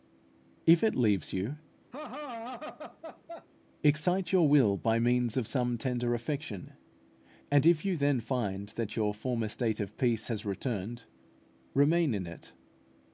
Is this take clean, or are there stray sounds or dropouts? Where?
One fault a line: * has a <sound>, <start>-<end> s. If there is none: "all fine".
* has a laugh, 1.9-3.5 s